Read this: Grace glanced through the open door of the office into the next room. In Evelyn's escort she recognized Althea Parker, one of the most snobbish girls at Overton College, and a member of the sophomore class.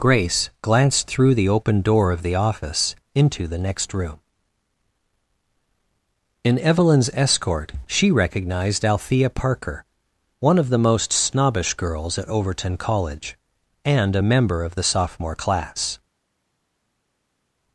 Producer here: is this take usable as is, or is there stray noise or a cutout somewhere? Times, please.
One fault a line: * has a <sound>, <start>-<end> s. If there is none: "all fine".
all fine